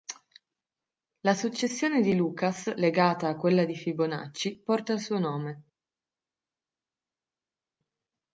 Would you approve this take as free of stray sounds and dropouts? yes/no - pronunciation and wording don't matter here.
yes